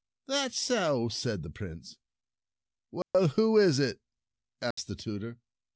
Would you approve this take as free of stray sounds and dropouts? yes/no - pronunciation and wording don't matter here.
no